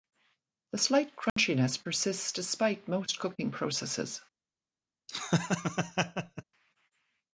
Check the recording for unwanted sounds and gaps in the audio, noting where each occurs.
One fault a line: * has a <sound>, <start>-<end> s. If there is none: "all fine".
* has a dropout, 1.3-1.4 s
* has a laugh, 5.1-6.4 s